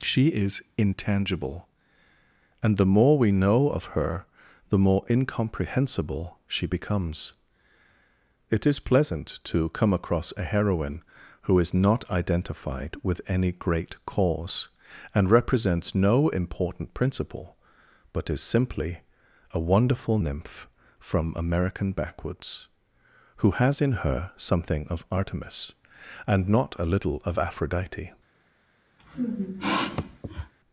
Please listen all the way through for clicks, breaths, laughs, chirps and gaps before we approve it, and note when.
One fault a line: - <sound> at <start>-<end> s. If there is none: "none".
- sniff at 29.0-30.5 s